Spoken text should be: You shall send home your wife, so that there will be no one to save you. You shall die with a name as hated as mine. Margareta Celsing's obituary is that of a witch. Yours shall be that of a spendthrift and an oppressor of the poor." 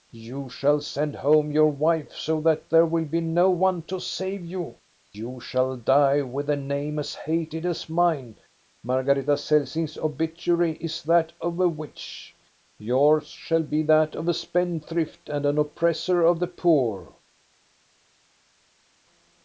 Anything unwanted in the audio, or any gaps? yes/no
no